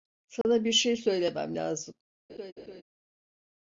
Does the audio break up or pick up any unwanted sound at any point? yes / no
yes